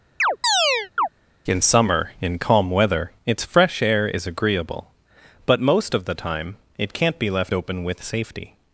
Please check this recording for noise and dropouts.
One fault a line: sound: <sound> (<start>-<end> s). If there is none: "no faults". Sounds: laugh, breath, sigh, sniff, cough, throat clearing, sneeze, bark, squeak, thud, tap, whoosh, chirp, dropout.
sound: chirp (0.2-1.1 s)